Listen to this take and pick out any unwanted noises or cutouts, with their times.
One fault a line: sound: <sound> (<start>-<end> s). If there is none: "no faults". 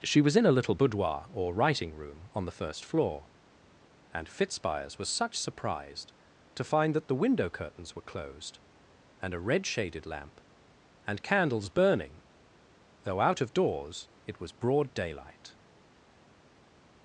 no faults